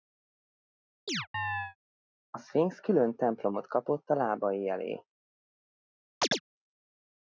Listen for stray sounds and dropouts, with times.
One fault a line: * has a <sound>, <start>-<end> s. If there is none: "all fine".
* has a chirp, 1.1-1.8 s
* has a chirp, 6.2-6.4 s